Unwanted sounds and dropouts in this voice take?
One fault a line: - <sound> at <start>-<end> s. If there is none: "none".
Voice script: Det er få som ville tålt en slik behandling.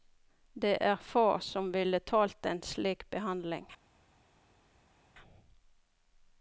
none